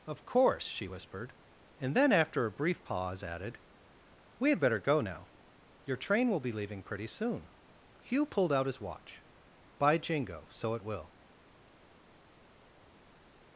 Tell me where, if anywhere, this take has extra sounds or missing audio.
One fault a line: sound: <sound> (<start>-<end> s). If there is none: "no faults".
no faults